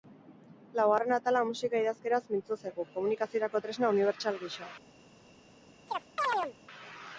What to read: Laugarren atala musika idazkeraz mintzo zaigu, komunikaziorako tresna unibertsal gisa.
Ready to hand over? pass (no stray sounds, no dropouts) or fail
fail